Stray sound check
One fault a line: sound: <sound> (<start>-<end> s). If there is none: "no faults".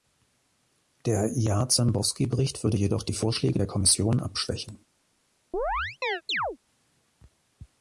sound: chirp (5.5-6.6 s)